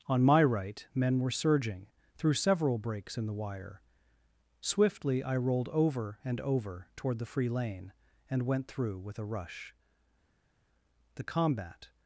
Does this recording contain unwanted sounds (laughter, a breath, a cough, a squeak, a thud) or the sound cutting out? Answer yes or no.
no